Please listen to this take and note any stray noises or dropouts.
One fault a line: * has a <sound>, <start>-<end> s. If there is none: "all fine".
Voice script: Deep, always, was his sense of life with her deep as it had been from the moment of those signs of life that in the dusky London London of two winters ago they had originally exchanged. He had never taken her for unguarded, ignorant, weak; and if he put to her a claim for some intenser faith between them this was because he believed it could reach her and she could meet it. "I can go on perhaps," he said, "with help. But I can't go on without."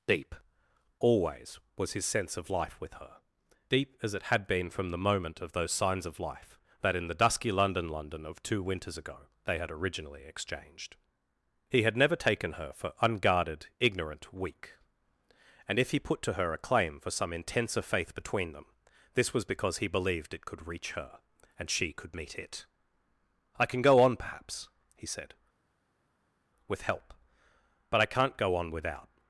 all fine